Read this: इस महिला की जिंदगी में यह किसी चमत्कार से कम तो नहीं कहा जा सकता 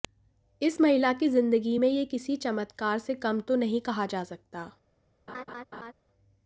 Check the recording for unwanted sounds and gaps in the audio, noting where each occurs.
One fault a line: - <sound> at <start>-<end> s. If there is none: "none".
- laugh at 5.3-5.9 s